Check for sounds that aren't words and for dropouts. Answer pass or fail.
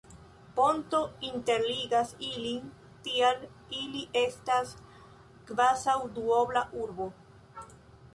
pass